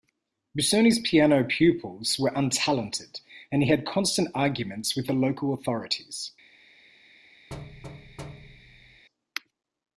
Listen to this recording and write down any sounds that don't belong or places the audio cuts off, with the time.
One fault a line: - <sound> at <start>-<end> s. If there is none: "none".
- thud at 7.5-9.0 s